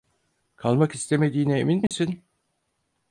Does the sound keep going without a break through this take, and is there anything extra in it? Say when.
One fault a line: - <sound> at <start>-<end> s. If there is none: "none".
- dropout at 1.9-1.9 s